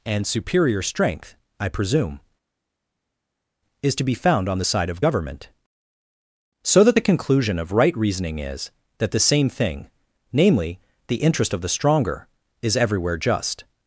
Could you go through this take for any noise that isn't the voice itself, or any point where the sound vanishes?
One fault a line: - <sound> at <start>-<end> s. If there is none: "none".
none